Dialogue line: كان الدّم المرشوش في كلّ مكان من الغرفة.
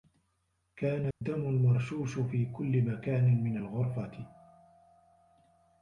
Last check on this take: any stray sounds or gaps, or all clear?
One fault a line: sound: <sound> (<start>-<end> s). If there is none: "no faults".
sound: dropout (1.1-1.2 s)